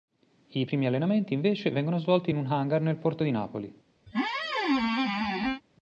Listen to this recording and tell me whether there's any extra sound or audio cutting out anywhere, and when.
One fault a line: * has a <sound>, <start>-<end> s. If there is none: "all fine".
* has a squeak, 4.1-5.6 s